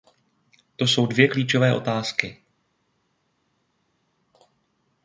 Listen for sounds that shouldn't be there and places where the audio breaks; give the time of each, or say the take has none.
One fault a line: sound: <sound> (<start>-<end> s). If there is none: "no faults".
no faults